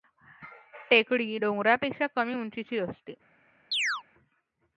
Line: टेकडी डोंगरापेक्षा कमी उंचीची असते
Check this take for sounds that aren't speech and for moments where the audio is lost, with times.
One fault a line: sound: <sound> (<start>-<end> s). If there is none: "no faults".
sound: chirp (3.7-4.0 s)